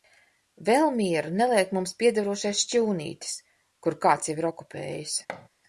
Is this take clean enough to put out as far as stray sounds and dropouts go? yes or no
no